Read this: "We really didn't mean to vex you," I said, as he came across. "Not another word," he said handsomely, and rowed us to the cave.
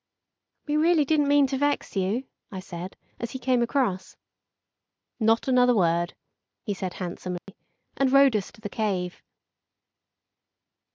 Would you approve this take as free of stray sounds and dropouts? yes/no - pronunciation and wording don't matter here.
no